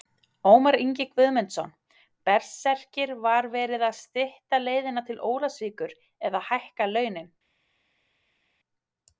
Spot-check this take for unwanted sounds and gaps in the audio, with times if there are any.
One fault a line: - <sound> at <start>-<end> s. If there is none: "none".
none